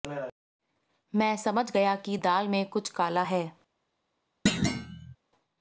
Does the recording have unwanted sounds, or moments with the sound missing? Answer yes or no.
yes